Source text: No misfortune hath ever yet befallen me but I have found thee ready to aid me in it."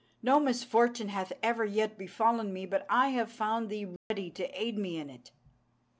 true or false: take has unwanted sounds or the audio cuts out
true